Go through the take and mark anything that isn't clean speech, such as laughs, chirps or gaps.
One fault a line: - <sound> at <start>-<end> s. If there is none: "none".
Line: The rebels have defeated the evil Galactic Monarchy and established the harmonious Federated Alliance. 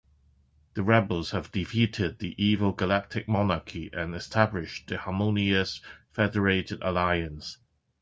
none